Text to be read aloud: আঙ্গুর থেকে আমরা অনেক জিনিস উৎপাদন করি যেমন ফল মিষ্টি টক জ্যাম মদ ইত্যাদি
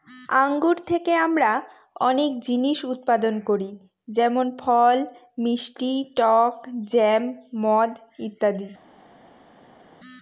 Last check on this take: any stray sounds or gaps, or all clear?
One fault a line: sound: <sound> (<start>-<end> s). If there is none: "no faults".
no faults